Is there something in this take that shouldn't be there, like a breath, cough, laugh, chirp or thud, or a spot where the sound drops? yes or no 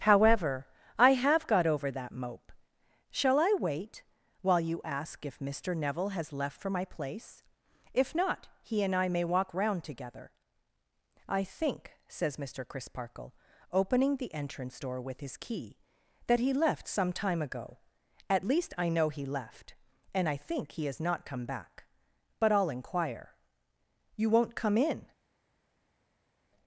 no